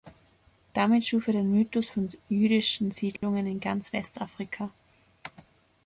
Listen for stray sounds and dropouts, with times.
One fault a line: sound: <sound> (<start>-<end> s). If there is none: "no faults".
sound: dropout (3.2-3.2 s)